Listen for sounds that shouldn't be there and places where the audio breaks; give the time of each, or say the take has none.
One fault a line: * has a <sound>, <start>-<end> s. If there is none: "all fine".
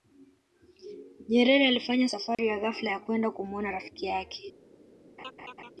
* has a dropout, 2.3-2.4 s
* has a laugh, 5.2-5.7 s